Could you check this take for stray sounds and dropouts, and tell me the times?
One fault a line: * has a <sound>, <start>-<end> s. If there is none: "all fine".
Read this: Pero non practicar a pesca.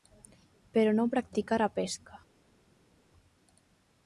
all fine